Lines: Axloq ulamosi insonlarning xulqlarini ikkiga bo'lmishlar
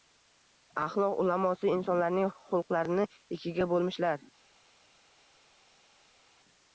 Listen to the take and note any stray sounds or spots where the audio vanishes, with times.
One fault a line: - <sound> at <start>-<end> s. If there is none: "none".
none